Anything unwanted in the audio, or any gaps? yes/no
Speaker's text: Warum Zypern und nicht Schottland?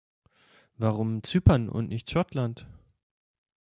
no